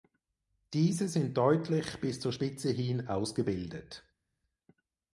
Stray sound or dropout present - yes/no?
no